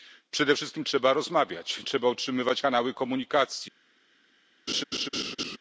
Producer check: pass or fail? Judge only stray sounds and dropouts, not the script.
fail